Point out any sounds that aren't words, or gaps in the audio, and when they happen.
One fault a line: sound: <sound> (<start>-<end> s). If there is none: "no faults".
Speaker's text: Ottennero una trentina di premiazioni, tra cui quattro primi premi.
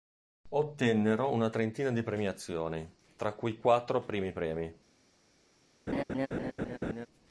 sound: laugh (5.9-7.1 s)